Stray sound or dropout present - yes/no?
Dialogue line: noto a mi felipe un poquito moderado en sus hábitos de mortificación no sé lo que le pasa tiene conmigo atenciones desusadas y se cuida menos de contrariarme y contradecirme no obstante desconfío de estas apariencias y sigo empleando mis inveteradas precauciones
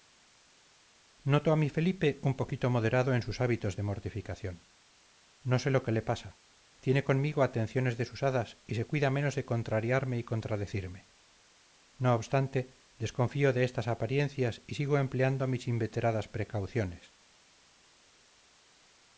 no